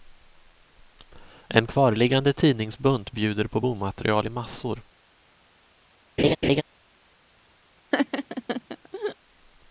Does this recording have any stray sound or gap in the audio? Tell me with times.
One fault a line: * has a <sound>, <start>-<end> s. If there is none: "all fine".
* has a laugh, 6.2-6.6 s
* has a laugh, 7.9-9.2 s